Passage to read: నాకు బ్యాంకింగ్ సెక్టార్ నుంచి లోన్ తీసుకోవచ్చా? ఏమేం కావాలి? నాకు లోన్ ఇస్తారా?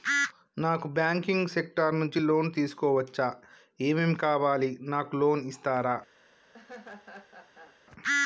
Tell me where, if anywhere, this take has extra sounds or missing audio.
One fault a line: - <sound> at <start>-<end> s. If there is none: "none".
- laugh at 6.5-7.8 s